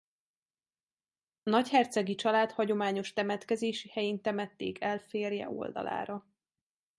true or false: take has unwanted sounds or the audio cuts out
false